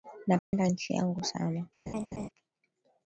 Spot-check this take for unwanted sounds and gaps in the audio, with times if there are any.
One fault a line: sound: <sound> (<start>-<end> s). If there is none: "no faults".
sound: dropout (0.4-0.5 s)
sound: laugh (1.9-2.3 s)